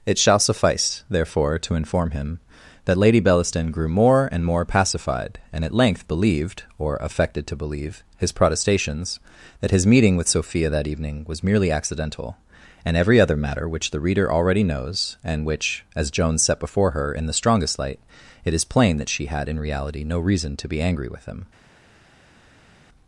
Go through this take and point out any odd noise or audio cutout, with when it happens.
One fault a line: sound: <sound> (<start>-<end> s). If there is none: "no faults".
no faults